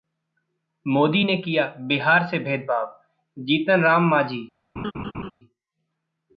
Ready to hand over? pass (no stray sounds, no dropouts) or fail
fail